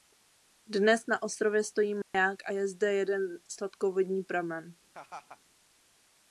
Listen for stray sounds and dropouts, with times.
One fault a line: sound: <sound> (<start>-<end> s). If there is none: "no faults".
sound: dropout (2.0-2.1 s)
sound: laugh (4.9-5.4 s)